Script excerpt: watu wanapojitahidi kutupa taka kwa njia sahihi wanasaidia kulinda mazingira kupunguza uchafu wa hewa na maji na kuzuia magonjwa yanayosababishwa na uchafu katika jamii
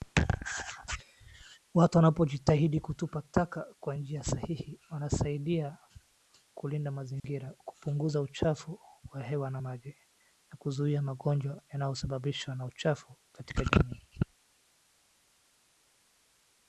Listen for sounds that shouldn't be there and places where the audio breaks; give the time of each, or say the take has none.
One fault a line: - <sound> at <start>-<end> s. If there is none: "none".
- dropout at 7.2-7.2 s